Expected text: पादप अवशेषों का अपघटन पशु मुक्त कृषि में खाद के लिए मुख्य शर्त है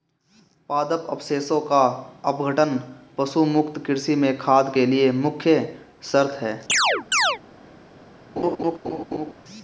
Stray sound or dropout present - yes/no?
yes